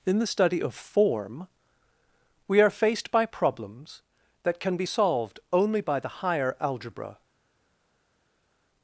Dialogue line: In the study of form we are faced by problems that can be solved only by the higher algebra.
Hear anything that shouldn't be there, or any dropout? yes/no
no